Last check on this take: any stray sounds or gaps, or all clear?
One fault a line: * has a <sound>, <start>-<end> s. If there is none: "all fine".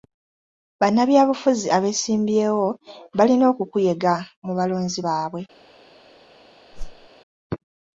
* has a whoosh, 6.7-7.1 s